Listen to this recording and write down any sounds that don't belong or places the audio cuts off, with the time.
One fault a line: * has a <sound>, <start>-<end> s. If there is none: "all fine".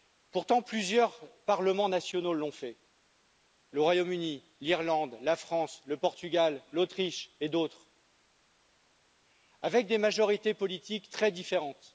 all fine